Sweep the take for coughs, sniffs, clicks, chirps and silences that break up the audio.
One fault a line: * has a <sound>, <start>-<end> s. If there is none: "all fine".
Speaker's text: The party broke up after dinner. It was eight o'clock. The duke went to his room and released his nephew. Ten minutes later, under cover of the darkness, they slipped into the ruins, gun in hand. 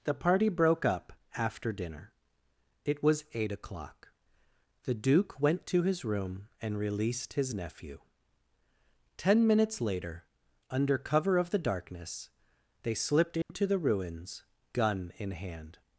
* has a dropout, 13.4-13.5 s